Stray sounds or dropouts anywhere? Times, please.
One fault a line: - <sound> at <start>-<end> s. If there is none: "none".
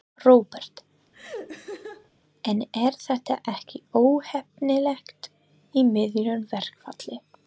- laugh at 1.1-2.1 s